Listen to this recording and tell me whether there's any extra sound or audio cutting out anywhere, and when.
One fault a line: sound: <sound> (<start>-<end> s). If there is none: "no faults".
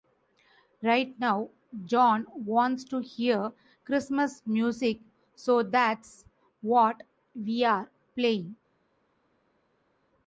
no faults